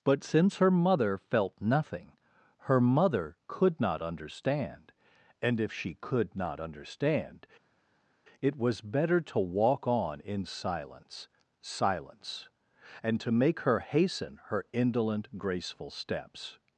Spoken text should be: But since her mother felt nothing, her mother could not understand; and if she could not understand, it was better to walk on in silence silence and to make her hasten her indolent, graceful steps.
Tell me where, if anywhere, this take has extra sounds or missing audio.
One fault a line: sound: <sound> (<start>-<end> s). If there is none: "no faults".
no faults